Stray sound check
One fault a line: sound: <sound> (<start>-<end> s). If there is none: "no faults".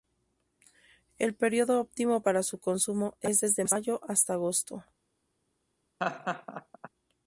sound: laugh (6.0-6.9 s)